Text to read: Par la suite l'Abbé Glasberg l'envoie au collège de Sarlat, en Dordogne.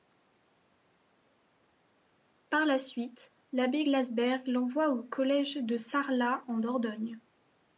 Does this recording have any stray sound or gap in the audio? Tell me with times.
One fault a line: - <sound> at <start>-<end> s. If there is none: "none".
none